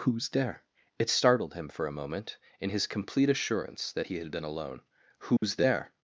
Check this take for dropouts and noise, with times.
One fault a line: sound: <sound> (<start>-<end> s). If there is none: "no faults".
sound: dropout (5.4-5.4 s)